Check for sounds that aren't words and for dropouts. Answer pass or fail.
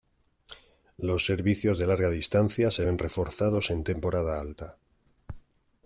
pass